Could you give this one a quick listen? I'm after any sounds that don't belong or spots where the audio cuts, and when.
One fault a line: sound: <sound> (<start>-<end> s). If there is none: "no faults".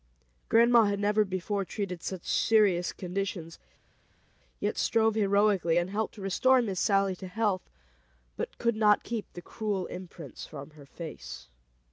no faults